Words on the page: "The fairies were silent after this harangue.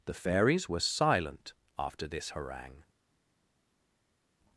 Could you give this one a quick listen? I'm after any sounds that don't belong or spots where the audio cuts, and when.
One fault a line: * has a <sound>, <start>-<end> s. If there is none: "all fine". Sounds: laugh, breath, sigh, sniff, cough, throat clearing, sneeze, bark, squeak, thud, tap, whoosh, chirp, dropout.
all fine